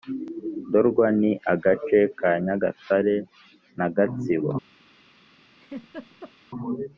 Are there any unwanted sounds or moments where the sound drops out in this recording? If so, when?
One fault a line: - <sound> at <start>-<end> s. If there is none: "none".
- laugh at 5.6-6.3 s